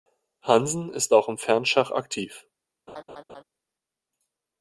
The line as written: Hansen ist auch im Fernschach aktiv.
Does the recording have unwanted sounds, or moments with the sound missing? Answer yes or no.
yes